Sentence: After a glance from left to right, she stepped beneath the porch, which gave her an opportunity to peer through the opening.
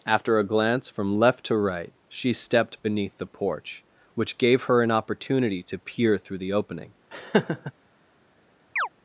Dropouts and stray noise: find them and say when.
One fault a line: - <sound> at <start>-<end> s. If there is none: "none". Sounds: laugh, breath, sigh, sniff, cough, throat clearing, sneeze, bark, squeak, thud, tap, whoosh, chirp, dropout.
- laugh at 7.1-7.7 s
- chirp at 8.8-8.9 s